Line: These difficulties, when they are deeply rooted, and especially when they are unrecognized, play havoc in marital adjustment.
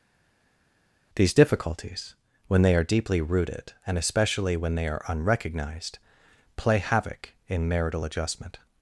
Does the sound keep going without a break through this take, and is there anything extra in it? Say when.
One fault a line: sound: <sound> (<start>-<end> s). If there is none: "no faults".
no faults